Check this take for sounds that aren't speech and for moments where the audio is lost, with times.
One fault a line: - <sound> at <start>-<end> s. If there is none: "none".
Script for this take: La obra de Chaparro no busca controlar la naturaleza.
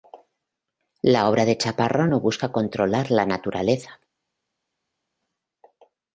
none